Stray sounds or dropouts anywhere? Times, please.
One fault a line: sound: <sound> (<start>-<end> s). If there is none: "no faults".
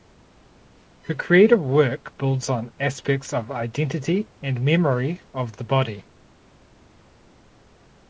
no faults